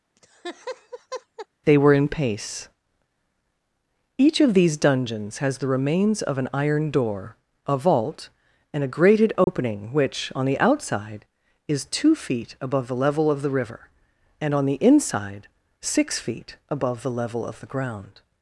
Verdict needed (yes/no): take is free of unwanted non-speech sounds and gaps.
no